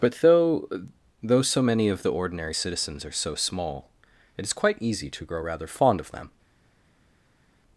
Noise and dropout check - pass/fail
pass